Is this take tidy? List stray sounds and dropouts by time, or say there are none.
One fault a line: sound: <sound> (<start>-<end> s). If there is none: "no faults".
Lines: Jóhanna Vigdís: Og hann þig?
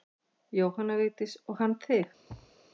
sound: thud (2.3-2.6 s)